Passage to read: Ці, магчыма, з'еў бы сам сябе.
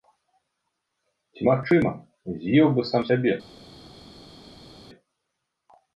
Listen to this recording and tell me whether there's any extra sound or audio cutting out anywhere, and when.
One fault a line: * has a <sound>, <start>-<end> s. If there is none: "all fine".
all fine